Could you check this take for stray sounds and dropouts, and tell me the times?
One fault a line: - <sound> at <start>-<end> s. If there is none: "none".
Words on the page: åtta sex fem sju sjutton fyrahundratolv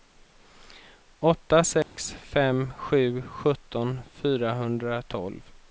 - dropout at 1.8-2.0 s